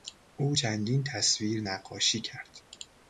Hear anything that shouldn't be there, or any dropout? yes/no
no